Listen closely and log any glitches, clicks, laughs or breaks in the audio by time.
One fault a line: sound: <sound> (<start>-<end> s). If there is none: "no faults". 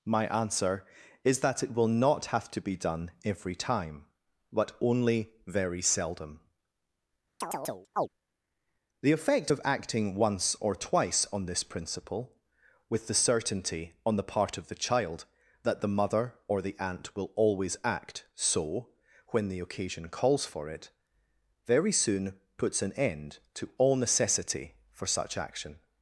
sound: chirp (7.4-8.1 s)